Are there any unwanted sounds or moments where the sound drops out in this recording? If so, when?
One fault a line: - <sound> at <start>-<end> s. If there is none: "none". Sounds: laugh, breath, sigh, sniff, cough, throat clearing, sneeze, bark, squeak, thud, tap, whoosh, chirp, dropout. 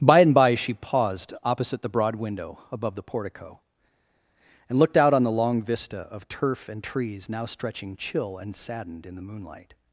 none